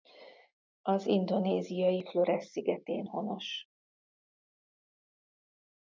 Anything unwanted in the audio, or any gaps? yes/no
no